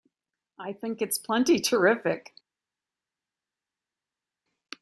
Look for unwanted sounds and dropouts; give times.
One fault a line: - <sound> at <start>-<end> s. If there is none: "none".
none